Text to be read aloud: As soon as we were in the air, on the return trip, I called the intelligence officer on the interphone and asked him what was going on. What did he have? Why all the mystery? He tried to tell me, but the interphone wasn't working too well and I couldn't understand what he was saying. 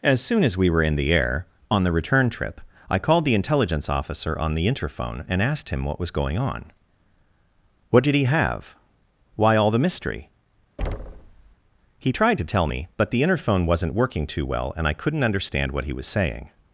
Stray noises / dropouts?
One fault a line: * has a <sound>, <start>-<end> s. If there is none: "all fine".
* has a thud, 10.8-11.6 s